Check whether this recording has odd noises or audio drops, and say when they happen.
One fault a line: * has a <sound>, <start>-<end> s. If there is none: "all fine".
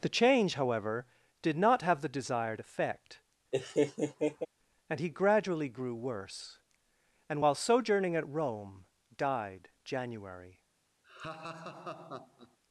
* has a laugh, 3.5-4.5 s
* has a laugh, 11.0-12.6 s